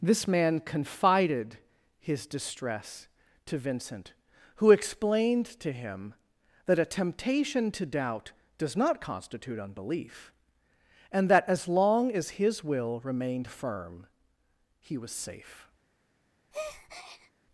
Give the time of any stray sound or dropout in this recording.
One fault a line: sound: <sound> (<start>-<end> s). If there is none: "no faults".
sound: breath (16.5-17.3 s)